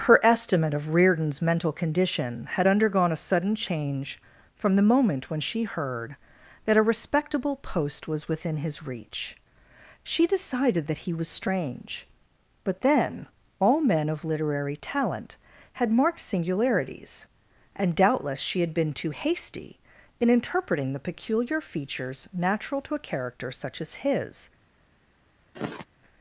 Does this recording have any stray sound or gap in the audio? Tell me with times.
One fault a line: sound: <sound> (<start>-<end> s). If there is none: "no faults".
sound: sigh (25.5-25.8 s)